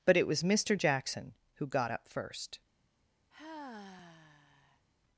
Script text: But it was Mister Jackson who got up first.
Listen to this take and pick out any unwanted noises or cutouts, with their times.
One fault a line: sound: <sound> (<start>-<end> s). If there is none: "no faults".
sound: sigh (3.3-4.8 s)